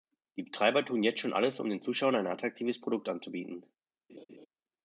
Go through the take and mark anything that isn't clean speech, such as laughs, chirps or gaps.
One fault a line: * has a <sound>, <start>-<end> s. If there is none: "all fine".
* has a laugh, 4.1-4.5 s